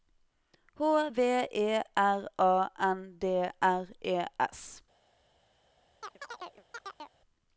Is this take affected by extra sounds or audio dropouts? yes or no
yes